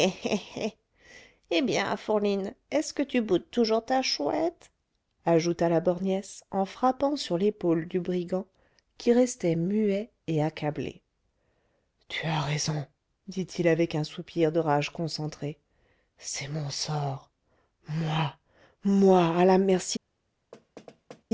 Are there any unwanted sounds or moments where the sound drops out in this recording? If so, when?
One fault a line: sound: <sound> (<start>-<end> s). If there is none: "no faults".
sound: thud (20.5-21.2 s)